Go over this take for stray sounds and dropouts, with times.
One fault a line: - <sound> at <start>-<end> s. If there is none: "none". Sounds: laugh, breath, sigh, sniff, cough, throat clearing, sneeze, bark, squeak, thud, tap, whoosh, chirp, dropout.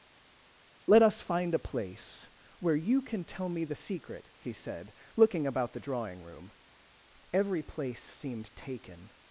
none